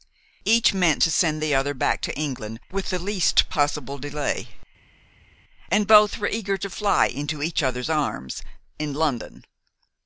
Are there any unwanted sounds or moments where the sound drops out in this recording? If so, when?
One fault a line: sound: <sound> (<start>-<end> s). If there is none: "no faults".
no faults